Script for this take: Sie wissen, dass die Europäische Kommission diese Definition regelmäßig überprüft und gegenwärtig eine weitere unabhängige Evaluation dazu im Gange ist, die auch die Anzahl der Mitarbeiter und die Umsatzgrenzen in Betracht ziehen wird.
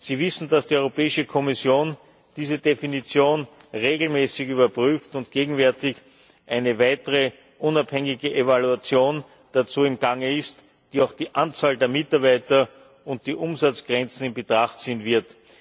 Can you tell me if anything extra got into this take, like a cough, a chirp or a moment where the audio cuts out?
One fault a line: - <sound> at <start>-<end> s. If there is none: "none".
none